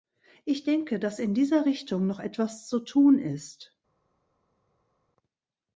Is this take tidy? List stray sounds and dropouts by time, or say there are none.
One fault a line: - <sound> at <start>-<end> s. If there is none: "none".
none